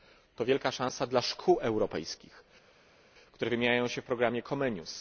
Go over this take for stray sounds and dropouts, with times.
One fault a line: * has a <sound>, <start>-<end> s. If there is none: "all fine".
all fine